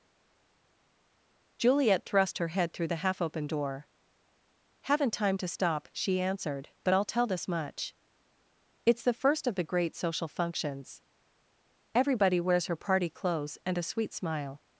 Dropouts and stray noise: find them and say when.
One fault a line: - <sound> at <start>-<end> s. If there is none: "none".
none